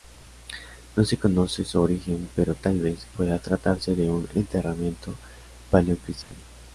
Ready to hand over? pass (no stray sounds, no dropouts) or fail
fail